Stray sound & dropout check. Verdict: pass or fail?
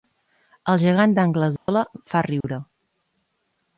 fail